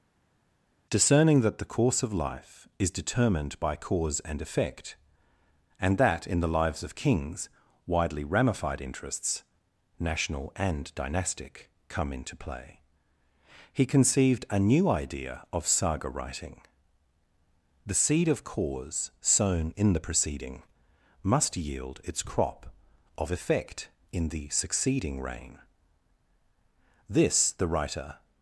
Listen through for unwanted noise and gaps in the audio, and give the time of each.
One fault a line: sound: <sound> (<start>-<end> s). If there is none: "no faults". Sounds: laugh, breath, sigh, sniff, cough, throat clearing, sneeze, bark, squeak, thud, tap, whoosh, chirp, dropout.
no faults